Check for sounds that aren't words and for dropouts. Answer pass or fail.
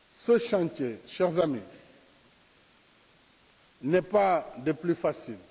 pass